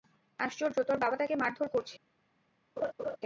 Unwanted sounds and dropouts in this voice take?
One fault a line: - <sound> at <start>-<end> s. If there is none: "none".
- laugh at 2.8-3.2 s